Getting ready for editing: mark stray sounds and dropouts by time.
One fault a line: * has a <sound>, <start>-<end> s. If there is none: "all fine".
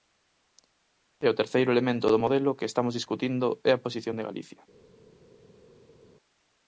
all fine